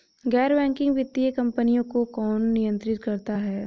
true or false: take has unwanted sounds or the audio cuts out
false